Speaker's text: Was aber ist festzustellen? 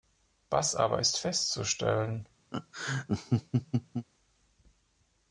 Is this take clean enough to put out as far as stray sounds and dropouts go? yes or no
no